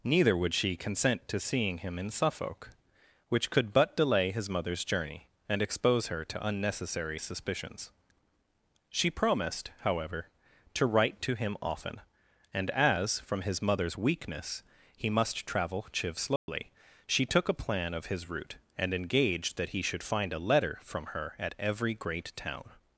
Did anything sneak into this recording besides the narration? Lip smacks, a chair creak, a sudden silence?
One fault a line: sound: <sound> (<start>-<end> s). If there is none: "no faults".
sound: dropout (16.4-16.5 s)